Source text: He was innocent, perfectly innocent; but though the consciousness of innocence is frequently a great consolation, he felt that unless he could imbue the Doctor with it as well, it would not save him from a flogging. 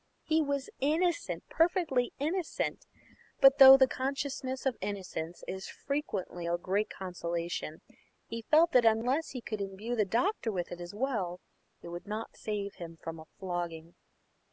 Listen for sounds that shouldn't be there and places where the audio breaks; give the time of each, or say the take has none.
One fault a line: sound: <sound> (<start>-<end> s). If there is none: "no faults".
no faults